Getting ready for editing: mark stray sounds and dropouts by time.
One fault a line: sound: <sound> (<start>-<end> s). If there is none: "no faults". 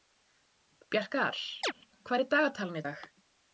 sound: chirp (1.6-1.7 s)